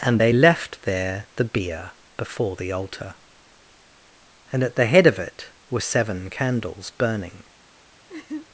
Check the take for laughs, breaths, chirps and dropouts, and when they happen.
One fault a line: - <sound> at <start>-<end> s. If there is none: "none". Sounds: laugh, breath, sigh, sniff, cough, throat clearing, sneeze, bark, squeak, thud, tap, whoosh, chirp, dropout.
- laugh at 8.1-8.5 s